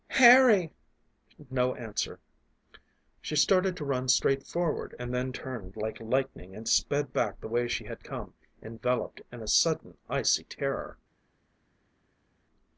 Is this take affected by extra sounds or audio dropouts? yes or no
no